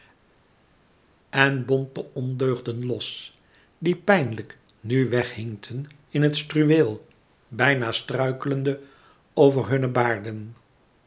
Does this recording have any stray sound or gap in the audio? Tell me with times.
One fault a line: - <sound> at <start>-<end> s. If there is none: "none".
none